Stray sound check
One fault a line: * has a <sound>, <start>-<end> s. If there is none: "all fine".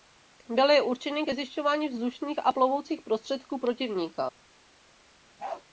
* has a bark, 5.4-5.6 s